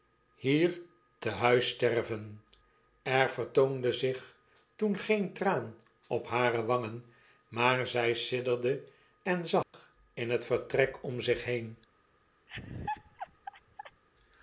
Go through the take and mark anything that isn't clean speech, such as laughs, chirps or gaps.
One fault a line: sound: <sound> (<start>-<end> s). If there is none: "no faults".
sound: dropout (9.6-9.7 s)
sound: laugh (12.5-14.0 s)